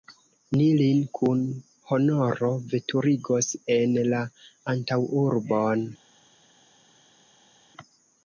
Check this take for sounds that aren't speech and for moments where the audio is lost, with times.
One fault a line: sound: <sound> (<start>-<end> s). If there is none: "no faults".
no faults